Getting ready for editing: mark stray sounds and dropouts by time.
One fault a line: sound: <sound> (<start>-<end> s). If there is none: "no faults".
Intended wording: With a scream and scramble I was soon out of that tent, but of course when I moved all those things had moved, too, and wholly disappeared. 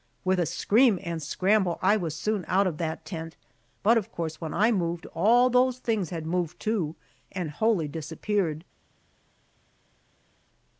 no faults